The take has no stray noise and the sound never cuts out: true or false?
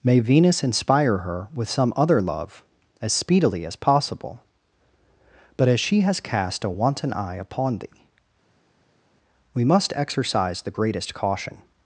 true